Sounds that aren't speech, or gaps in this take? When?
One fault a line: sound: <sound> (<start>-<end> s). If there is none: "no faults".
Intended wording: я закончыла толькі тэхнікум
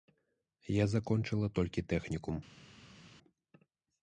no faults